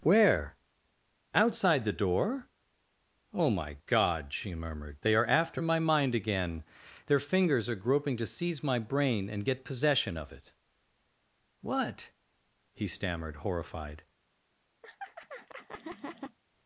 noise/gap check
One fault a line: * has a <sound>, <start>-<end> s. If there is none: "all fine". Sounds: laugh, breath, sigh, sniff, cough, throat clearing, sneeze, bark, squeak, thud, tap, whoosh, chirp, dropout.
* has a laugh, 14.8-16.4 s